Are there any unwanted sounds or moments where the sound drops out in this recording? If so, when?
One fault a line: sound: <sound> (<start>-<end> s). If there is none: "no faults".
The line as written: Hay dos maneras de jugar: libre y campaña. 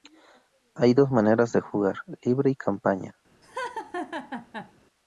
sound: laugh (3.4-4.7 s)